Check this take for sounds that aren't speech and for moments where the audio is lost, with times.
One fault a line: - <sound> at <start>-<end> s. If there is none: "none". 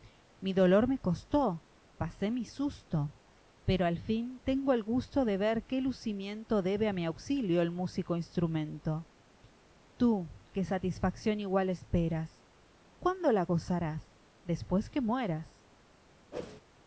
- whoosh at 16.3-16.6 s